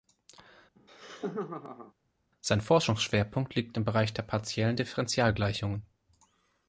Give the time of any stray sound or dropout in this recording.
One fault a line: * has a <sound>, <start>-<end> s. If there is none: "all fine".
* has a laugh, 0.8-1.9 s